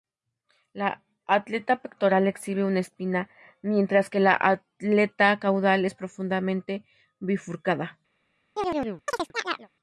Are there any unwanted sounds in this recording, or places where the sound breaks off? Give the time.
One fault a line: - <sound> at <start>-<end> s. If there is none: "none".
- chirp at 8.6-9.7 s